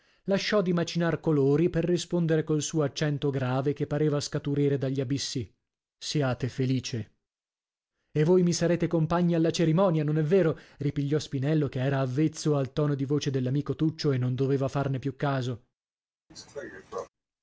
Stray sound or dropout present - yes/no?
yes